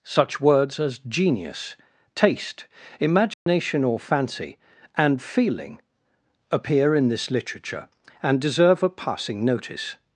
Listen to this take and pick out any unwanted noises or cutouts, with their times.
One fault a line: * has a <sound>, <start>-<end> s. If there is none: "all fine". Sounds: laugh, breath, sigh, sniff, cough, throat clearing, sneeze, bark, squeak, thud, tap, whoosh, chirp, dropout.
* has a dropout, 3.3-3.5 s